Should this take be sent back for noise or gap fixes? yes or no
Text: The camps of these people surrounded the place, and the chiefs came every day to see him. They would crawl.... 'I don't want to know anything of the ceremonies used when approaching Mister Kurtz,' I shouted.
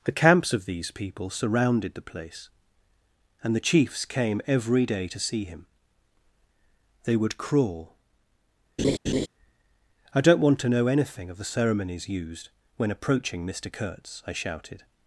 yes